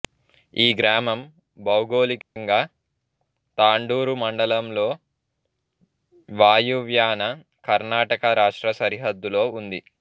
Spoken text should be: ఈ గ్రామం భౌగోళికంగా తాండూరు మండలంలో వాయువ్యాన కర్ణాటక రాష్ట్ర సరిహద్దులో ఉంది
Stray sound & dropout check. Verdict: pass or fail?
fail